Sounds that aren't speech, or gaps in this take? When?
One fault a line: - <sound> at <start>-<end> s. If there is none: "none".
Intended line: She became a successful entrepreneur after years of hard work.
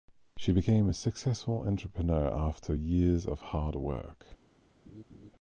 - laugh at 4.8-5.3 s